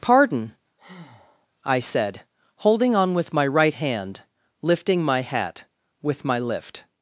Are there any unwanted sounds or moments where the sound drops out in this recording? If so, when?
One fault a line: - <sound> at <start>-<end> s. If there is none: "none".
- breath at 0.8-1.5 s